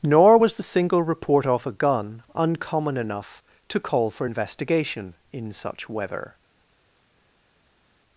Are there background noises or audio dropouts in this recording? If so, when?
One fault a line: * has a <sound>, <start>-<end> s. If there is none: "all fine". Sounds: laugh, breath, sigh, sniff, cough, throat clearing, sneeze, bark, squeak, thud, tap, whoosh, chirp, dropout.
all fine